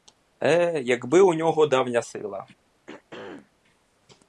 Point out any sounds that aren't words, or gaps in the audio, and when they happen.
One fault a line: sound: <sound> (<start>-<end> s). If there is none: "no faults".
sound: throat clearing (2.9-3.5 s)